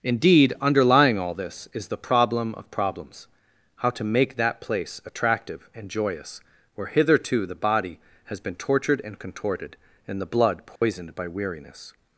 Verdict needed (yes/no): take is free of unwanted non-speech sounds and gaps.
no